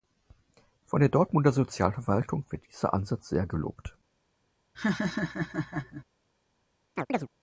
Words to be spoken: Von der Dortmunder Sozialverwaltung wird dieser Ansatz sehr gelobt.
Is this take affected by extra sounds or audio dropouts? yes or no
yes